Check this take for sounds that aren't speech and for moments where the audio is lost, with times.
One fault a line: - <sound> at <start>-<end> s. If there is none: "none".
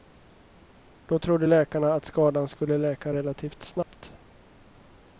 - dropout at 3.8-3.9 s